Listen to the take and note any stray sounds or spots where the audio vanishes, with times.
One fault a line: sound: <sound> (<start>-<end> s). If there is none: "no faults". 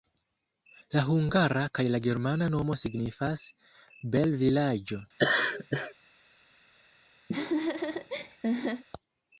sound: laugh (5.2-5.9 s)
sound: laugh (7.3-8.8 s)